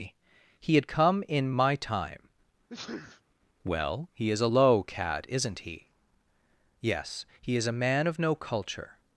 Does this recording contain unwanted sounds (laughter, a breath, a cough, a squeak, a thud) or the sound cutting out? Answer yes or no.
yes